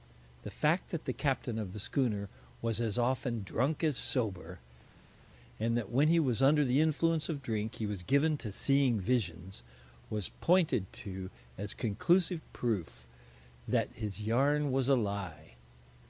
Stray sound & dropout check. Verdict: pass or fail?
pass